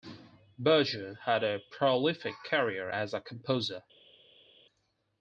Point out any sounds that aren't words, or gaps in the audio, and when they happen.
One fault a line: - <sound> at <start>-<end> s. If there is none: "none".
none